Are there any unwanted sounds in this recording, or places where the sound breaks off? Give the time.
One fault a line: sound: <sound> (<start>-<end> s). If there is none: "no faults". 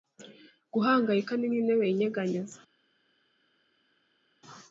no faults